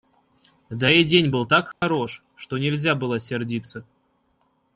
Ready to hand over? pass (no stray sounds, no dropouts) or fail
fail